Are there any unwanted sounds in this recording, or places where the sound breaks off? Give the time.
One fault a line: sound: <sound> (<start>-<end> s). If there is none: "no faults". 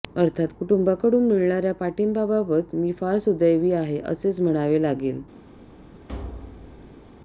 sound: thud (6.1-7.0 s)